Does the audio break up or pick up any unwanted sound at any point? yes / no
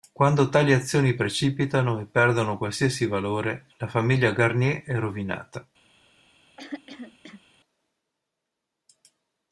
yes